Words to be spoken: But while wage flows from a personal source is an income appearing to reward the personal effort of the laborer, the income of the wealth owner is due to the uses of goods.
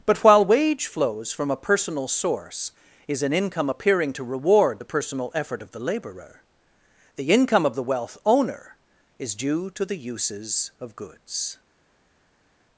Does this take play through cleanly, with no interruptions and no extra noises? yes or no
yes